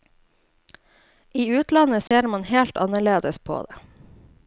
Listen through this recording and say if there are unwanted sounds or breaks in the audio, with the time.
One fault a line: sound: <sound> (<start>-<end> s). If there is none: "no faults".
sound: dropout (2.1-2.1 s)